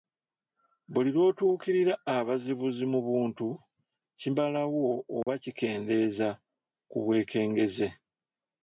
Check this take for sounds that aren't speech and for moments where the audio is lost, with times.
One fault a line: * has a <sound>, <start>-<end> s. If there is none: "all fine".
* has a dropout, 5.2-5.3 s